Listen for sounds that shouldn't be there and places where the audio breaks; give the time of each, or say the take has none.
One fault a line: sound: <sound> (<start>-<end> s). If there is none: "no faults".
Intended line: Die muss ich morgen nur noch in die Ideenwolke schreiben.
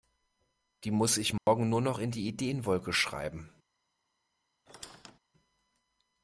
sound: dropout (1.4-1.5 s)
sound: squeak (4.7-5.2 s)